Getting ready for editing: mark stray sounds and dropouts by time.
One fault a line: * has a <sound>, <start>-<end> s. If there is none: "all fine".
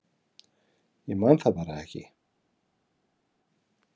all fine